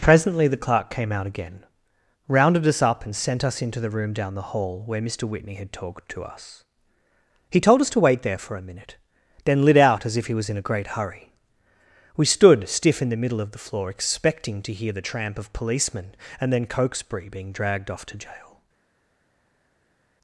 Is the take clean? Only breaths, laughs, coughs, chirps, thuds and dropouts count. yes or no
yes